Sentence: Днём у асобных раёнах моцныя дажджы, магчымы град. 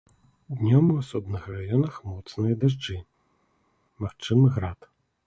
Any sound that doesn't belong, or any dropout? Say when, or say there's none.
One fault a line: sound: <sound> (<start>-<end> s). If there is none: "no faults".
no faults